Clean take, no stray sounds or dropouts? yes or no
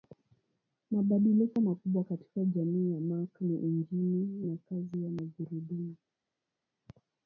yes